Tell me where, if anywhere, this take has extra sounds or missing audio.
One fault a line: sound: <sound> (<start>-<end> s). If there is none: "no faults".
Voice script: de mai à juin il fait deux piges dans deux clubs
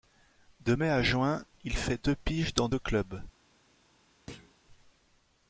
sound: thud (4.3-4.6 s)